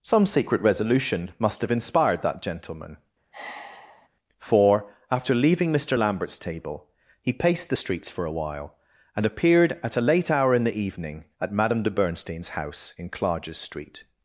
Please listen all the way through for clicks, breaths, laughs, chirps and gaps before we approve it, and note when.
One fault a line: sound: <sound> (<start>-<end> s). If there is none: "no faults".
sound: sigh (3.3-4.1 s)